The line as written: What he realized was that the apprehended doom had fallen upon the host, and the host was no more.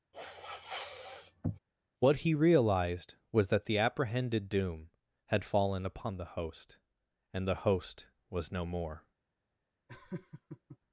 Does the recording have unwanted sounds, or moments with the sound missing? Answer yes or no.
yes